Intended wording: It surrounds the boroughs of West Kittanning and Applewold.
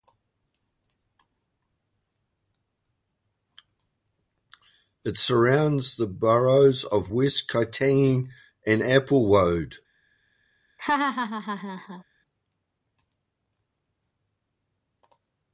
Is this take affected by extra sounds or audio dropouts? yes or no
yes